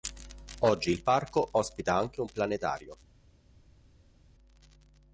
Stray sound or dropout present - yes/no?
no